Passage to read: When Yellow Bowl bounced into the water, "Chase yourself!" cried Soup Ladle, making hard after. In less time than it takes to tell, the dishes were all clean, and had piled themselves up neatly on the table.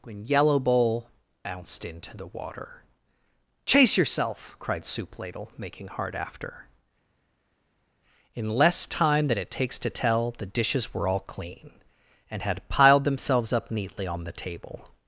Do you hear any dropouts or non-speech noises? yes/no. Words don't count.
no